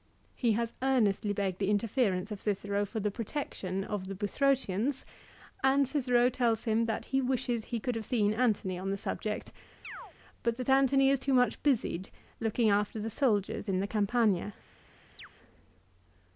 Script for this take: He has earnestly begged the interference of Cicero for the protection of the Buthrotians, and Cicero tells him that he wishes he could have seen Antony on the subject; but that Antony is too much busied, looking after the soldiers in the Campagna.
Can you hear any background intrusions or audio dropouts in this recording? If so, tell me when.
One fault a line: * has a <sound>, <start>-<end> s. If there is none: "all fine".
* has a chirp, 9.8-10.1 s
* has a chirp, 15.2-15.3 s